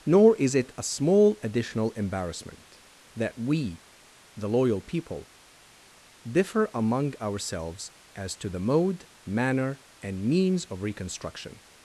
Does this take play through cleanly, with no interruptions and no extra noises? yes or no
yes